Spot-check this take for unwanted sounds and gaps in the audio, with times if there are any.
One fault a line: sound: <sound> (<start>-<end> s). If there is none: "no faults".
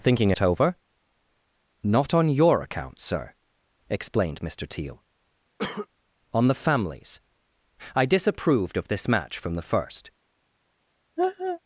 sound: cough (5.6-5.9 s)
sound: laugh (11.2-11.6 s)